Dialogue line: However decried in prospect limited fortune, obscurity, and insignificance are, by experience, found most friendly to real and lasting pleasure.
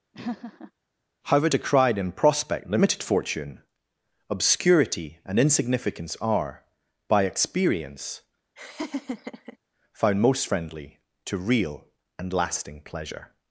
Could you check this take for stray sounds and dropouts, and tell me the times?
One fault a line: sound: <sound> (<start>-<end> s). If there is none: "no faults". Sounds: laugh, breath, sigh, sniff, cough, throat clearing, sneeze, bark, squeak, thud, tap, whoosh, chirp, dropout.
sound: laugh (0.1-0.7 s)
sound: laugh (8.6-9.6 s)